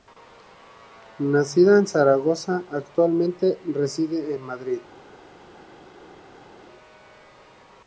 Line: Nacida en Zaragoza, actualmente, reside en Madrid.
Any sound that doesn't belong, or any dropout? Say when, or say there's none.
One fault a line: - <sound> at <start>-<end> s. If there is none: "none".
none